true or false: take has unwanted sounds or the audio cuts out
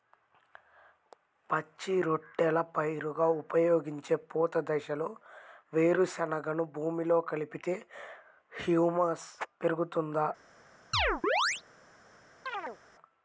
true